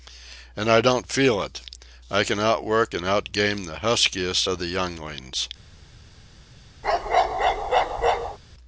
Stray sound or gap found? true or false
true